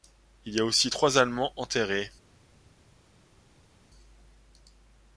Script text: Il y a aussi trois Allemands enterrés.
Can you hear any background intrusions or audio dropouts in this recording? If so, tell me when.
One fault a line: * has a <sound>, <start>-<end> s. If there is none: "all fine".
all fine